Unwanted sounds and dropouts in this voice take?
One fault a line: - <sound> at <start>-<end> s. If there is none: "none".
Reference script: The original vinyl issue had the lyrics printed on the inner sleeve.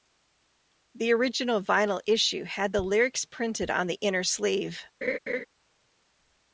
- laugh at 5.0-5.5 s